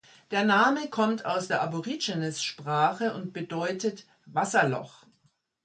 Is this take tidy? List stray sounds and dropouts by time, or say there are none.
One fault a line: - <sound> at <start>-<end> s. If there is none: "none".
none